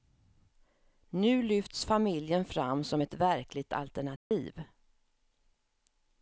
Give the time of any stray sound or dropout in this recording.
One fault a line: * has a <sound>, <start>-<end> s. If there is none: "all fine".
* has a dropout, 4.2-4.3 s